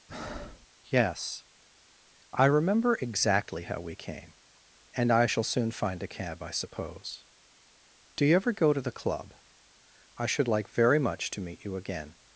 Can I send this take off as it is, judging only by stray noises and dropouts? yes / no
no